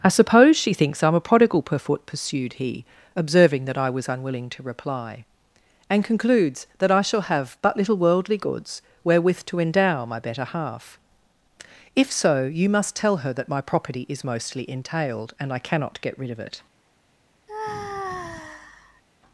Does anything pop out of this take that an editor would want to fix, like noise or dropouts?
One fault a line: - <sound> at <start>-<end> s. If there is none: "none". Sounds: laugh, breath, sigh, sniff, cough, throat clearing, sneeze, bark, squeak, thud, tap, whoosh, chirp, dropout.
- sigh at 17.5-19.0 s